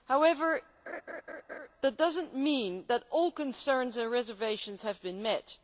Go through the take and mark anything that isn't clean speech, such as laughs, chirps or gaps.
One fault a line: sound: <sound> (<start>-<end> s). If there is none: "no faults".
sound: laugh (0.9-1.7 s)